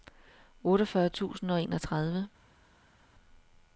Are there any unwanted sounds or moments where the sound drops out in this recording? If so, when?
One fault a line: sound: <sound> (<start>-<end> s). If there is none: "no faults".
no faults